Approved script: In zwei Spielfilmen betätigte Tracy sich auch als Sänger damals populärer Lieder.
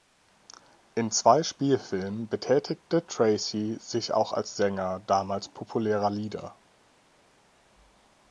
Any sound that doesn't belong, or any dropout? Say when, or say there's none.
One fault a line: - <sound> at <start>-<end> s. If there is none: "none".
none